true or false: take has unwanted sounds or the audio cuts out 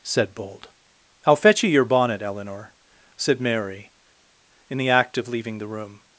false